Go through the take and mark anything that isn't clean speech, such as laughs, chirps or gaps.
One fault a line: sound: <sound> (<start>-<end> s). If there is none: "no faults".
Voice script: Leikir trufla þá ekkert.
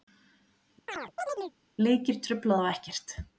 sound: chirp (0.9-1.6 s)